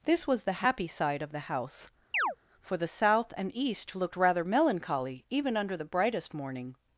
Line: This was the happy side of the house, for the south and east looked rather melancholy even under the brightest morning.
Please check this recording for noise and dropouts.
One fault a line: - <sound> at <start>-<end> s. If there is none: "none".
- chirp at 2.1-2.4 s